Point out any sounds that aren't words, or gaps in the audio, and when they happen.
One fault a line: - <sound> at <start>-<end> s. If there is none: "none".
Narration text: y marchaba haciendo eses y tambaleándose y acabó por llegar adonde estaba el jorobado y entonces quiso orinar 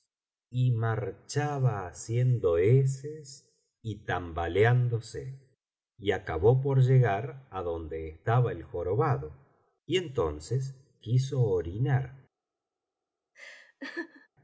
- laugh at 13.3-14.3 s